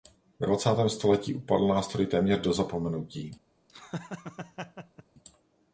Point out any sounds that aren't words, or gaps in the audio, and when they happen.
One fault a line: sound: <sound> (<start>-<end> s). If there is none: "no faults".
sound: laugh (3.7-5.0 s)